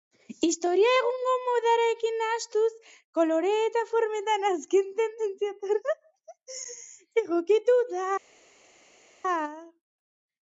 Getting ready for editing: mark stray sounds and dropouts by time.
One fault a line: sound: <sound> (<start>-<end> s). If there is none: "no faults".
no faults